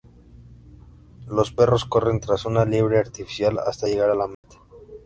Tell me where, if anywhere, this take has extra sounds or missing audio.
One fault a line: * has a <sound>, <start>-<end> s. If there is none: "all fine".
* has a dropout, 4.3-4.4 s